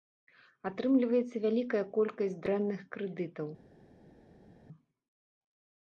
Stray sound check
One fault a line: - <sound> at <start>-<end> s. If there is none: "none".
none